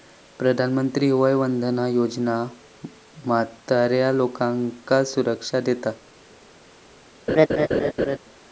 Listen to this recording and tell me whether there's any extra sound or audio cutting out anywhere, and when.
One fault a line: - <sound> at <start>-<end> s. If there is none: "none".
- laugh at 7.3-8.2 s